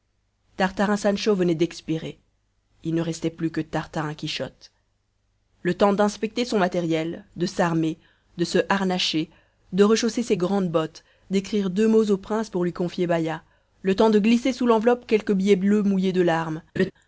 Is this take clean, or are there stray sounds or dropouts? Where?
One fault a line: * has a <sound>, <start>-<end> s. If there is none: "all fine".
* has a laugh, 16.8-16.9 s